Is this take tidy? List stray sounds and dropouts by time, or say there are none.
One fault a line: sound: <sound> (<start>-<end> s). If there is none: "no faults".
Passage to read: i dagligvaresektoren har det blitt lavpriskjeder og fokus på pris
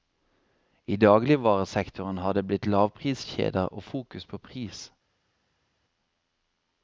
no faults